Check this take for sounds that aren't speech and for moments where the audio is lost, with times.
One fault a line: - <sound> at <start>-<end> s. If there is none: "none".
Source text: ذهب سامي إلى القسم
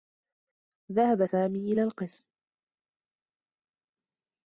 none